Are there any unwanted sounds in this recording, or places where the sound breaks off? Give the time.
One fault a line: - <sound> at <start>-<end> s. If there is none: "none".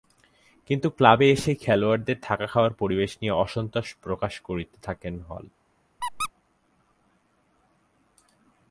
- squeak at 6.0-6.3 s